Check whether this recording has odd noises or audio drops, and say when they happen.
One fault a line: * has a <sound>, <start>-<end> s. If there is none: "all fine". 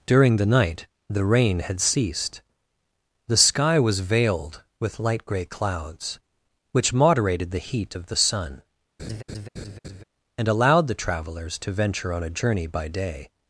* has a laugh, 9.0-10.0 s